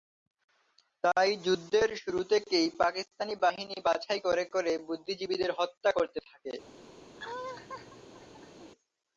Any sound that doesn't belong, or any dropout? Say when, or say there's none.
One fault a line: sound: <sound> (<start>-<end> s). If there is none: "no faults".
sound: laugh (7.2-8.7 s)